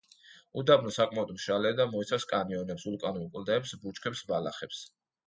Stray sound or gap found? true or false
false